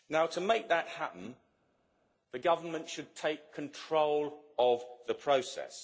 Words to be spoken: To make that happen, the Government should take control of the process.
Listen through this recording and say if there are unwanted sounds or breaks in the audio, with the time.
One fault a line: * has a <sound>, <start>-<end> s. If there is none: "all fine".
all fine